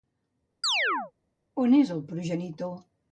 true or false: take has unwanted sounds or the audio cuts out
true